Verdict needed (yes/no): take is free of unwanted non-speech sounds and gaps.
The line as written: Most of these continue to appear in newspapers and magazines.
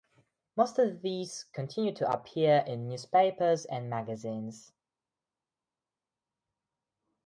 yes